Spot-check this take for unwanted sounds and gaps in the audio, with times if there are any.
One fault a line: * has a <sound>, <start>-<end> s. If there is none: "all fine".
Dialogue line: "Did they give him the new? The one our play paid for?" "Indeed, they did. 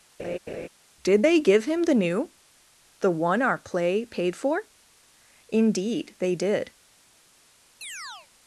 * has a laugh, 0.2-0.7 s
* has a chirp, 7.8-8.3 s